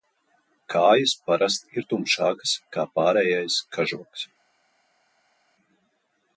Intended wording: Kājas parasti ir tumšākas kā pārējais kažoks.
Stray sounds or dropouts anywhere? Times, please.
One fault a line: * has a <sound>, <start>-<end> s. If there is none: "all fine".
all fine